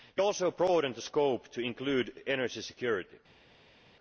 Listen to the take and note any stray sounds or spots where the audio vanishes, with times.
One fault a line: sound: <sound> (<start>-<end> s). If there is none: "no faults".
no faults